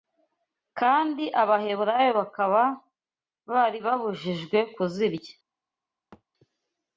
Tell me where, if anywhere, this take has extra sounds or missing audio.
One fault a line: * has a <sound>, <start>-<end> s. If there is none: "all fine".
* has a thud, 6.1-6.2 s